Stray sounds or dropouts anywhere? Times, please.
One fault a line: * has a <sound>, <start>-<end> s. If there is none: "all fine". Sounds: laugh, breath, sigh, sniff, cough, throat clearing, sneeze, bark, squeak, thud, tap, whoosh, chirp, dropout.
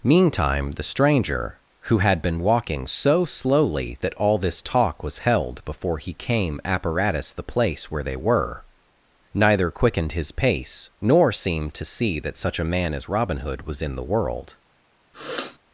* has a sniff, 15.1-15.6 s